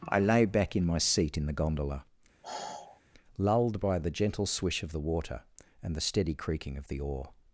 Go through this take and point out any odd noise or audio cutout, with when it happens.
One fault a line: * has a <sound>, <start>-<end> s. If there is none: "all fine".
* has a sigh, 2.4-3.0 s